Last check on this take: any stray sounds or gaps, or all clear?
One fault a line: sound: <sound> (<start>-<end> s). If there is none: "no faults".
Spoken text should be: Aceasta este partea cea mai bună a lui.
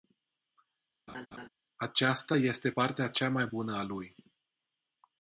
sound: laugh (1.1-1.5 s)